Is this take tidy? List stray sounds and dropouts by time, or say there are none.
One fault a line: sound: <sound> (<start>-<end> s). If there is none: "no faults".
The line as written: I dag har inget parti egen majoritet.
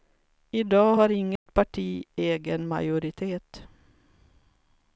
sound: dropout (1.4-1.5 s)